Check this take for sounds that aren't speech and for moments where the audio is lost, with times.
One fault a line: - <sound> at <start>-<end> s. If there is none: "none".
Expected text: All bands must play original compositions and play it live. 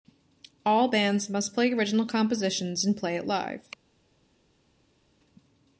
none